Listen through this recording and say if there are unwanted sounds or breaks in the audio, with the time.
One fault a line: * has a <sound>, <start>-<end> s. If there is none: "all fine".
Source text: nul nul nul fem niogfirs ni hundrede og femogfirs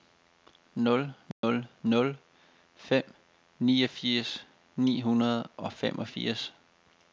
* has a dropout, 1.3-1.4 s